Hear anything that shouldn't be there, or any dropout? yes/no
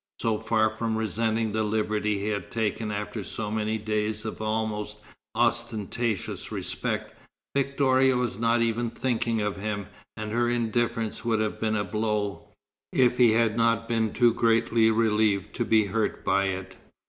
no